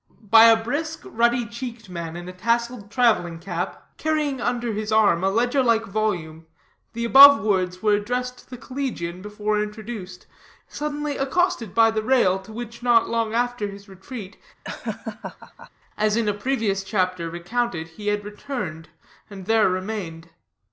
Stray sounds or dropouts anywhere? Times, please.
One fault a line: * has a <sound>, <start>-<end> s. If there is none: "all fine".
* has a laugh, 14.6-15.7 s